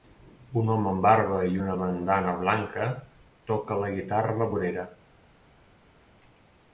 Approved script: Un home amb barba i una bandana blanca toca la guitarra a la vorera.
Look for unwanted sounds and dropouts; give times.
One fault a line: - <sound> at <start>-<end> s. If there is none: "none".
none